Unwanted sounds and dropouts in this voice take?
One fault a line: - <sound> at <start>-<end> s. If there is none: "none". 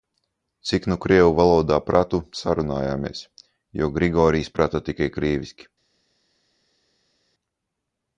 none